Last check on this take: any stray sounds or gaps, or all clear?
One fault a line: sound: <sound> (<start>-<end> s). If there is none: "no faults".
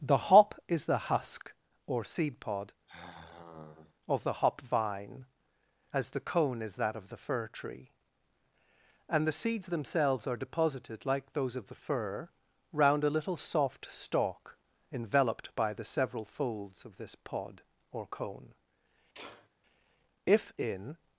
sound: sigh (2.9-3.9 s)
sound: sneeze (19.1-19.5 s)